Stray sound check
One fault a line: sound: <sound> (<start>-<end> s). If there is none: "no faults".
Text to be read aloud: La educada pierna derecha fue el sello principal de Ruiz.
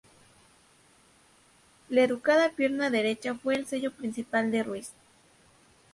no faults